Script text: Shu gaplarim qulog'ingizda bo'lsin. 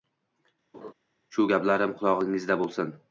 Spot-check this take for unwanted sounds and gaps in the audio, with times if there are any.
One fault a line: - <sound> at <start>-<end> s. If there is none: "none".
- laugh at 0.7-0.9 s